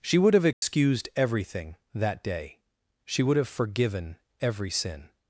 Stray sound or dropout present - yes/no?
yes